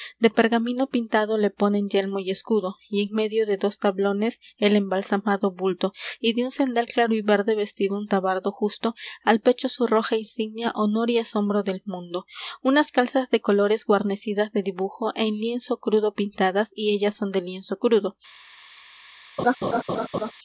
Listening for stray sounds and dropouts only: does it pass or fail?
fail